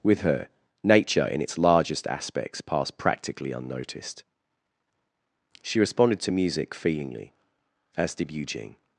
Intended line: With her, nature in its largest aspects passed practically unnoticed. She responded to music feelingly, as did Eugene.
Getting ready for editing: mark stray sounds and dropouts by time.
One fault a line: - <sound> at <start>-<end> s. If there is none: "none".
none